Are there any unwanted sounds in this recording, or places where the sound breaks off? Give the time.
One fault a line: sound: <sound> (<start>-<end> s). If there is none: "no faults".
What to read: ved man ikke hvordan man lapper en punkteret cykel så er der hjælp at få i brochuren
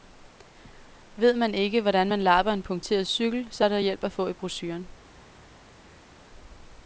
no faults